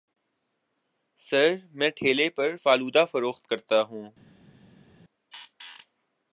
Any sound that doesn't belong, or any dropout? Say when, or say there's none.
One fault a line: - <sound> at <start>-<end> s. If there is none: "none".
none